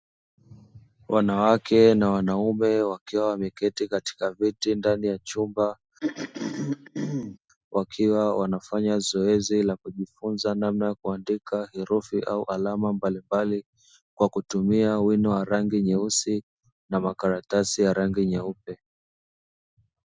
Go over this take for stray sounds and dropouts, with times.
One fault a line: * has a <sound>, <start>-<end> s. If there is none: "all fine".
* has a throat clearing, 6.0-7.4 s